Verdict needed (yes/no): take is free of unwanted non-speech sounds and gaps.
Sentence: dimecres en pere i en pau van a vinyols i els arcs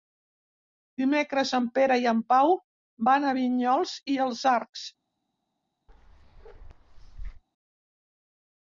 no